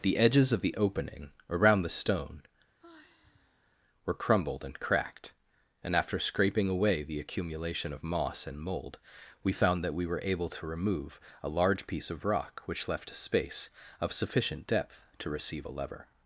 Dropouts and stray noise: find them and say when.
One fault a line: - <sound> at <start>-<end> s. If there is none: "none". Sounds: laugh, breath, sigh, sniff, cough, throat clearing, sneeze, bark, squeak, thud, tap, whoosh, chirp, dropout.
- sigh at 2.8-3.8 s